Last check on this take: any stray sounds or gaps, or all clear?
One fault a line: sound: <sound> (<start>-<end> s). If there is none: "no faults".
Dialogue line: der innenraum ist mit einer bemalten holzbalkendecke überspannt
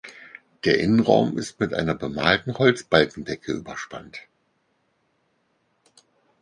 no faults